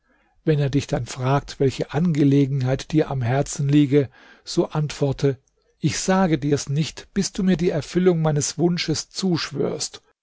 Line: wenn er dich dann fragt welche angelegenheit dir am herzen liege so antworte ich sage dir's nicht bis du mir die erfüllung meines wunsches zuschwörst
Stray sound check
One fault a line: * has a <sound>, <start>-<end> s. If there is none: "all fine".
all fine